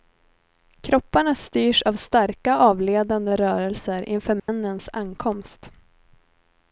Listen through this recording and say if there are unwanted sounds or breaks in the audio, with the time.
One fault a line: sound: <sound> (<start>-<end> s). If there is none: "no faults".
sound: dropout (4.4-4.5 s)